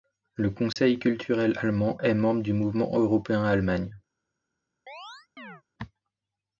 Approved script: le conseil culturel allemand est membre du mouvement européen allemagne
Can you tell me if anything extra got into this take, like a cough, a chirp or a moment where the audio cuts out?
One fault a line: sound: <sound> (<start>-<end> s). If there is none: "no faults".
sound: dropout (0.7-0.8 s)
sound: chirp (4.9-5.6 s)